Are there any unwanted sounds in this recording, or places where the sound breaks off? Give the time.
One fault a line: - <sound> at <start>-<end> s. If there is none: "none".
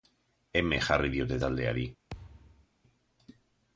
- thud at 2.1-2.7 s